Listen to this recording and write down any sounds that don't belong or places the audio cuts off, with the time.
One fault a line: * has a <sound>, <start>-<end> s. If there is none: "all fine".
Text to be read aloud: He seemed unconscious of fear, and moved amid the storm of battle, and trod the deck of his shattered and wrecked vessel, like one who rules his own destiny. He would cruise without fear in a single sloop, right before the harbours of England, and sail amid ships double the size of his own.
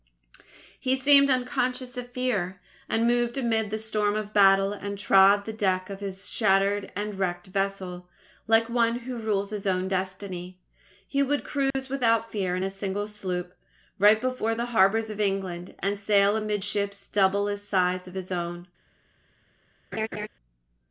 * has a dropout, 11.7-11.7 s
* has a laugh, 19.9-20.3 s